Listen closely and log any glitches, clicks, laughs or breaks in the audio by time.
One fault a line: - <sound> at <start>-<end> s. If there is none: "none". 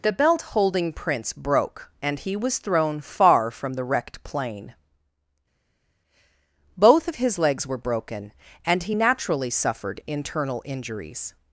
none